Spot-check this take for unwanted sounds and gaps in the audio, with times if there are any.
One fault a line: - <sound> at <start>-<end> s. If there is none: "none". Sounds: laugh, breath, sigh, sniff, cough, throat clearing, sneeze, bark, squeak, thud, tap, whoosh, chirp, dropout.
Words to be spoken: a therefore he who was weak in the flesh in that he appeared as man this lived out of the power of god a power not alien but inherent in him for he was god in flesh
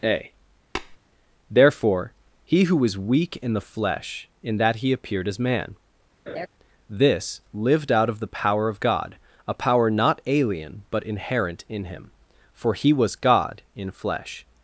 - tap at 0.8-1.0 s
- laugh at 6.3-6.5 s